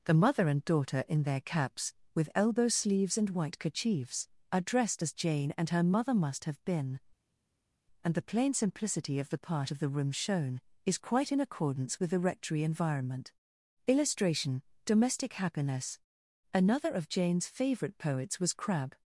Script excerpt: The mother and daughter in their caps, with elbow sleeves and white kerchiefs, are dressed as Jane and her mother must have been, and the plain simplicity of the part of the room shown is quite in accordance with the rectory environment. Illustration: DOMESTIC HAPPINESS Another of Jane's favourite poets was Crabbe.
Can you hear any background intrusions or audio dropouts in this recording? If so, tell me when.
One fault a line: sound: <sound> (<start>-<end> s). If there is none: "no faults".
no faults